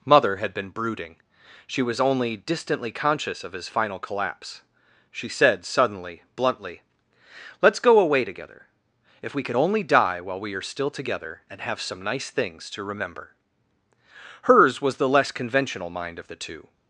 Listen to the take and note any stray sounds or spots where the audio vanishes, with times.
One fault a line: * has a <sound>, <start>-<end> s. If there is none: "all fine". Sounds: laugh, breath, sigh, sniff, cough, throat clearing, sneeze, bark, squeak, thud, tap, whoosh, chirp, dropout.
all fine